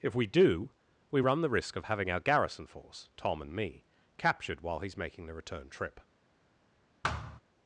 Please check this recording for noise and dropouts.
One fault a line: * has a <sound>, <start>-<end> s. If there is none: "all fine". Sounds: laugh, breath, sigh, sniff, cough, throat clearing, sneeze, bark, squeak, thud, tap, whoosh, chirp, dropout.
* has a thud, 7.0-7.4 s